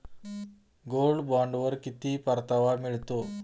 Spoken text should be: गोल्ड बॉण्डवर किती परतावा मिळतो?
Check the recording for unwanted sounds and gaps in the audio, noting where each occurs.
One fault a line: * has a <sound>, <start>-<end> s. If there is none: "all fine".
all fine